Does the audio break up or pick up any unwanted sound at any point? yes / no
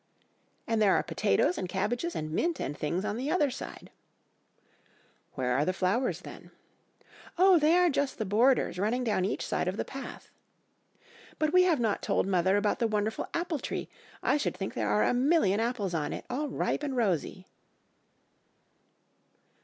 no